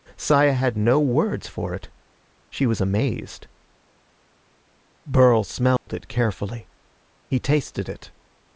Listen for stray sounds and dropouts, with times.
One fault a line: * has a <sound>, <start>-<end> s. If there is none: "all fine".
* has a dropout, 5.8-5.9 s